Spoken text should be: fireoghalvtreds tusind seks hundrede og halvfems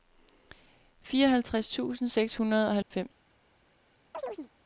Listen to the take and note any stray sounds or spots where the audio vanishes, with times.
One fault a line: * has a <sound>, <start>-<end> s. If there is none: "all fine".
* has a dropout, 2.8-2.9 s
* has a chirp, 4.1-4.5 s